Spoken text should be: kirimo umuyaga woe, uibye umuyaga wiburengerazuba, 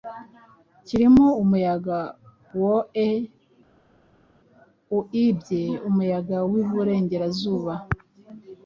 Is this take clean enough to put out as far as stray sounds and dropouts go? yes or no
yes